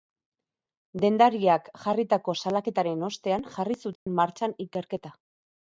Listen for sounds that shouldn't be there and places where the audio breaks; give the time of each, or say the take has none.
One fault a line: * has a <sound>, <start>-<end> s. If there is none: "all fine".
* has a dropout, 4.0-4.1 s